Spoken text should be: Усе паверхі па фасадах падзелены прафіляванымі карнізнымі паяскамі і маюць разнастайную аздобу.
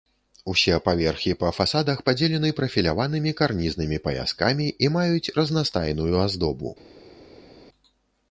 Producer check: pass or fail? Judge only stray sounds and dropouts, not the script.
pass